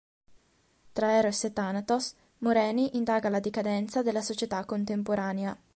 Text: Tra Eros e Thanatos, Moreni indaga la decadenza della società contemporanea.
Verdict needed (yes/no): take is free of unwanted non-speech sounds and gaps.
yes